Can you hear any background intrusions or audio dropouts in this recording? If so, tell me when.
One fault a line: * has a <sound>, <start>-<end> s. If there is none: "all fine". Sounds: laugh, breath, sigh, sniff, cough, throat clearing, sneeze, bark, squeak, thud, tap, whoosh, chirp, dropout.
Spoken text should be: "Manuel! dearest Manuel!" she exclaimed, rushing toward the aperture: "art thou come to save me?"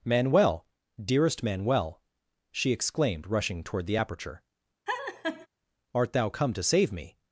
* has a laugh, 4.9-5.5 s